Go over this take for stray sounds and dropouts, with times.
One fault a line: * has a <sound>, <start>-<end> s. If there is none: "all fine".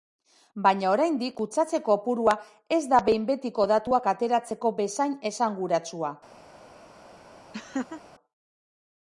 * has a laugh, 7.5-8.0 s